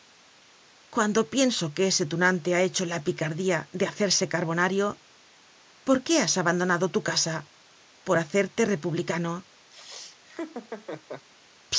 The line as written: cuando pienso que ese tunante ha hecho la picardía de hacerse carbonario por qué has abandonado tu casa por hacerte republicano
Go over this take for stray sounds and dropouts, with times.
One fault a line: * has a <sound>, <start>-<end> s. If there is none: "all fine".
* has a laugh, 9.7-11.3 s